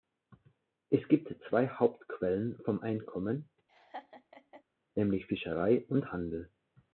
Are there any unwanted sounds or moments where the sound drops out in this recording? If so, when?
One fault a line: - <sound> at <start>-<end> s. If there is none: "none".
- laugh at 3.7-4.6 s